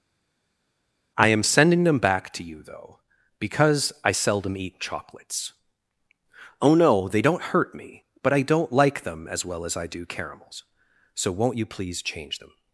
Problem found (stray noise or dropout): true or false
false